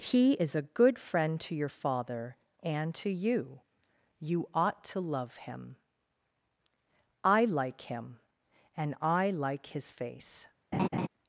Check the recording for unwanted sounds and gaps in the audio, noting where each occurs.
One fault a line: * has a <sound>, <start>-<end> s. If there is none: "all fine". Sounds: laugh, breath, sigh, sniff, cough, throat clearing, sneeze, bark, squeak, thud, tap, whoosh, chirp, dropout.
* has a laugh, 10.7-11.1 s